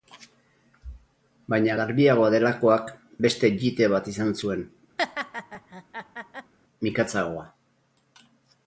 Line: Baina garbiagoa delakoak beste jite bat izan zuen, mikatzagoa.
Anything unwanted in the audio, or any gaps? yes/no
yes